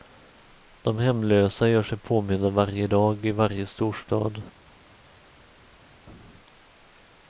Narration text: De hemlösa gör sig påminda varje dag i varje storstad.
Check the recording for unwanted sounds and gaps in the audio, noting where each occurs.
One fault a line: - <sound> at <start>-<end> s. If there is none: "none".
none